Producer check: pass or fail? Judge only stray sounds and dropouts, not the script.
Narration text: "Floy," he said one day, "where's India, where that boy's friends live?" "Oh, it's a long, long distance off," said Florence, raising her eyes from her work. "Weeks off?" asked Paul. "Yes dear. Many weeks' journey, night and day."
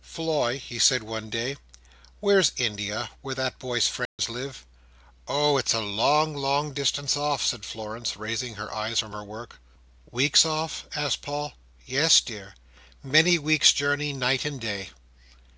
fail